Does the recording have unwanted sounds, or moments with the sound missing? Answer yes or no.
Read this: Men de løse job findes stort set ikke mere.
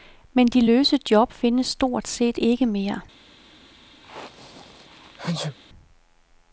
yes